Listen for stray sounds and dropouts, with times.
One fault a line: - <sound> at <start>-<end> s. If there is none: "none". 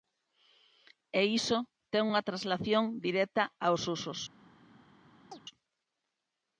- chirp at 5.3-5.4 s